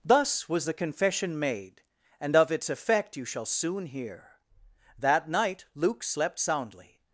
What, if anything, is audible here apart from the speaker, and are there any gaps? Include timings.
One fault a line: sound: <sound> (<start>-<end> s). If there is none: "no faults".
no faults